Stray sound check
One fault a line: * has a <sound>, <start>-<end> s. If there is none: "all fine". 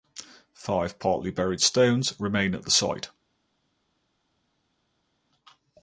all fine